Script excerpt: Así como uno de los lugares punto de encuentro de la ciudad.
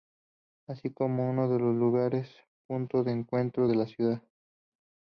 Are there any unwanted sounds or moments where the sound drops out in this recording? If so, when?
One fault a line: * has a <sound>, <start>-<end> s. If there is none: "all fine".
all fine